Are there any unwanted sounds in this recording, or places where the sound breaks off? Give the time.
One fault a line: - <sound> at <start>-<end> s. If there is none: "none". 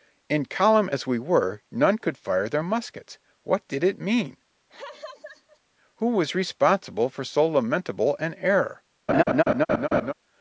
- laugh at 4.7-5.6 s
- laugh at 9.1-10.1 s